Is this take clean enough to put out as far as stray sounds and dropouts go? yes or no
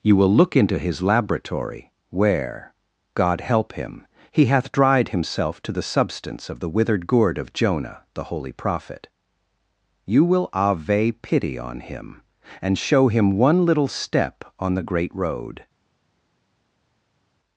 yes